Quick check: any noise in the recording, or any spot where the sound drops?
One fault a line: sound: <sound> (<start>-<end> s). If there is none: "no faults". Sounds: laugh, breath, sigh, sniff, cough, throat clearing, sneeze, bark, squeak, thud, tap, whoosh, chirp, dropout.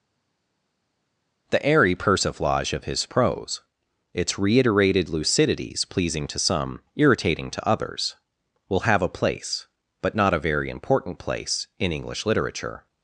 no faults